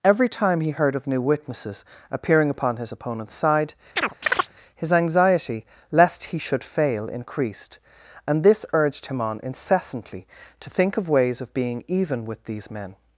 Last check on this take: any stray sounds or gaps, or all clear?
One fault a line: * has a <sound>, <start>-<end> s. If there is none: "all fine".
* has a chirp, 4.0-4.5 s